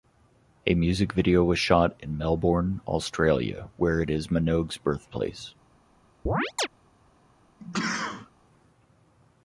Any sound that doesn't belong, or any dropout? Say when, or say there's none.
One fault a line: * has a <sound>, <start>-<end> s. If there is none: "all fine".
* has a chirp, 6.3-6.7 s
* has a sneeze, 7.6-8.3 s